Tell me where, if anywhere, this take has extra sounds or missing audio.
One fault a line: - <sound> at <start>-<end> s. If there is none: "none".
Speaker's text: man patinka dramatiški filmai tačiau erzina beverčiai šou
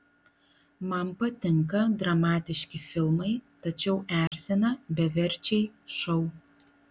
- dropout at 4.3-4.3 s